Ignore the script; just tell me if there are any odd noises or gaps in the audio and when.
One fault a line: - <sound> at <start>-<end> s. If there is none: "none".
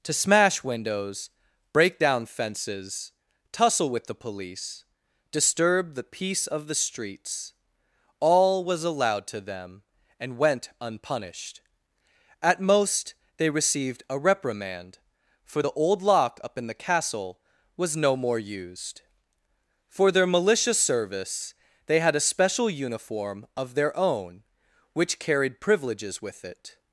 none